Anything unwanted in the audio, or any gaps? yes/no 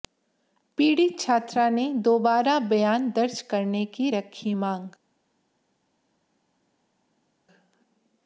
no